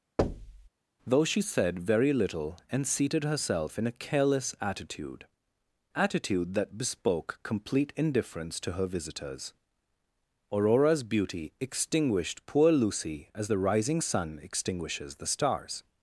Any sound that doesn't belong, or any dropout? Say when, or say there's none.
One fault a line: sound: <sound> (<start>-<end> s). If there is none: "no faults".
sound: thud (0.2-0.7 s)